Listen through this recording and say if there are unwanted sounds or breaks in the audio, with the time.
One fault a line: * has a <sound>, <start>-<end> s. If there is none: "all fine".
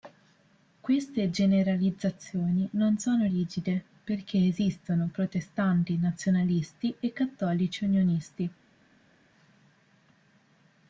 all fine